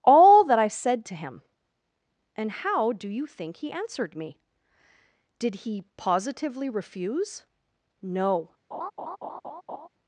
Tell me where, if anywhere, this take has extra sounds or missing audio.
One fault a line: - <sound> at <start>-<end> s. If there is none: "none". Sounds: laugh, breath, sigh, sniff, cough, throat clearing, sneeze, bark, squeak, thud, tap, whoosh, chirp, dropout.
- laugh at 8.7-9.9 s